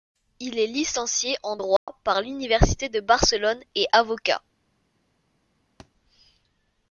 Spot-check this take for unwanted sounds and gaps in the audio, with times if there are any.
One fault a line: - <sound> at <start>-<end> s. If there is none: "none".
- dropout at 1.8-1.9 s
- thud at 5.8-5.9 s